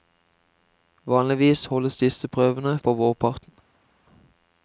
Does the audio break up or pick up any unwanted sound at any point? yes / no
no